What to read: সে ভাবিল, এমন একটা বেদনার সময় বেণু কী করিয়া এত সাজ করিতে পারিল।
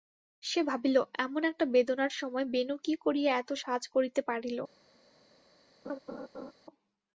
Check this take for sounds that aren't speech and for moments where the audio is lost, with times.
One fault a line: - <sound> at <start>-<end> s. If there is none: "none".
- laugh at 5.8-6.5 s